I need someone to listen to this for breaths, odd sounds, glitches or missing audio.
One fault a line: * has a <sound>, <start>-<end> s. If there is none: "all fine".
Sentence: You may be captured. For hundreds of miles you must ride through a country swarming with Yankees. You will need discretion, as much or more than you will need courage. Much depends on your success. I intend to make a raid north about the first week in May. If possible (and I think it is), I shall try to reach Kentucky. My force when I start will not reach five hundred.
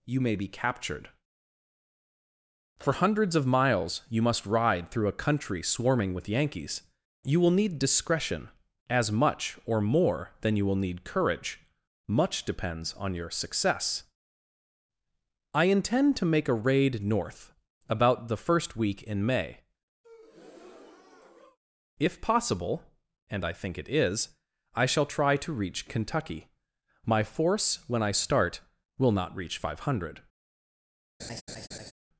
* has a breath, 20.0-21.6 s
* has a laugh, 31.2-31.9 s